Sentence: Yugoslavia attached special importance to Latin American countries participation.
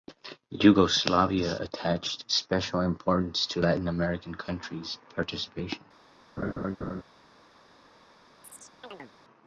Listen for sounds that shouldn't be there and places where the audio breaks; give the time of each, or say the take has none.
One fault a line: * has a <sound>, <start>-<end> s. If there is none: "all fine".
* has a laugh, 6.4-7.0 s
* has a chirp, 8.4-9.1 s